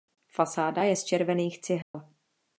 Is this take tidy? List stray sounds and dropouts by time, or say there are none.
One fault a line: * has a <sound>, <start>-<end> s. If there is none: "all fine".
* has a dropout, 1.8-1.9 s